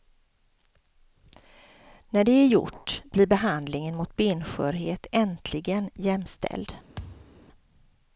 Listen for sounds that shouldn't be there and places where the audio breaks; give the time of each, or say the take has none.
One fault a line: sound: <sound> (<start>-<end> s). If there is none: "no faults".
sound: thud (7.0-7.4 s)